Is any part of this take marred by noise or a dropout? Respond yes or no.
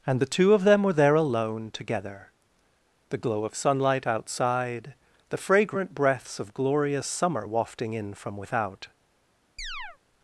yes